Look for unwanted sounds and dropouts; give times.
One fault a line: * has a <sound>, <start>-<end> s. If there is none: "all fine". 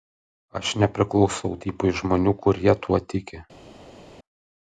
all fine